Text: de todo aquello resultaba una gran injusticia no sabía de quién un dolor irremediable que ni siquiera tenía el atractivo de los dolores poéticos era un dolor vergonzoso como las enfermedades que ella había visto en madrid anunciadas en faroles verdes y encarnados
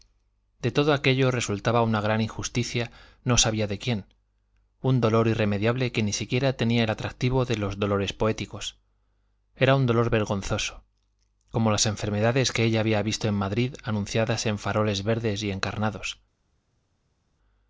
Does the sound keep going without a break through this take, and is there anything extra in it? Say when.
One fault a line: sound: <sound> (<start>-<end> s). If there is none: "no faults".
no faults